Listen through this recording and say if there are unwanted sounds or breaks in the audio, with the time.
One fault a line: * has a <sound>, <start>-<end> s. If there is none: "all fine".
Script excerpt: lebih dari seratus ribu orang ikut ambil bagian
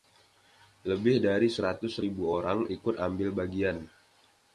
all fine